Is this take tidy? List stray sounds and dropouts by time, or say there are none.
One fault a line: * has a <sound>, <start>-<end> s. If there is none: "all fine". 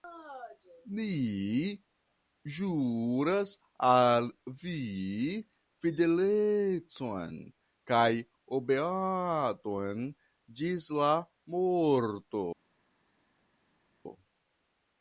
all fine